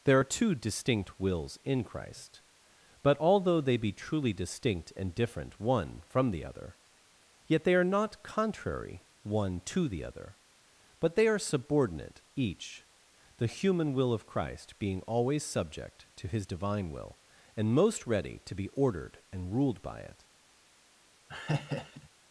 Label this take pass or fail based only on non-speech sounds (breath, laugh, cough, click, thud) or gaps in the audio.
fail